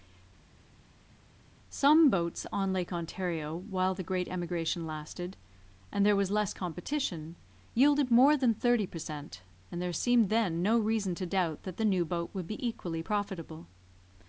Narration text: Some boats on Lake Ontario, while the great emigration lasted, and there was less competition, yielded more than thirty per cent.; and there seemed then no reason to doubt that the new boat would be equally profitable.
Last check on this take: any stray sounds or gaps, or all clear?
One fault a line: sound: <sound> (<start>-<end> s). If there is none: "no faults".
no faults